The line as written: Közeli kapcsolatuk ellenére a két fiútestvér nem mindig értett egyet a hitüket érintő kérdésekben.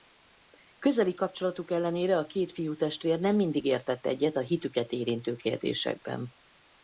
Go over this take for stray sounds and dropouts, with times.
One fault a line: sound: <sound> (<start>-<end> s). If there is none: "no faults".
no faults